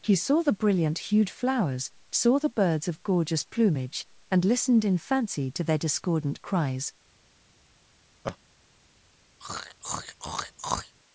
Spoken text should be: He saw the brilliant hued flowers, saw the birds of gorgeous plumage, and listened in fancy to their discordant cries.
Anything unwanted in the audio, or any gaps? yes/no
yes